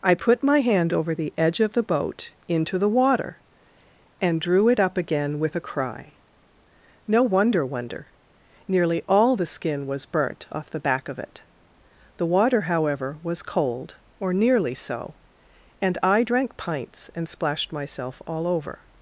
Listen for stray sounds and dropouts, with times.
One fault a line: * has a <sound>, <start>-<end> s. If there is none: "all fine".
all fine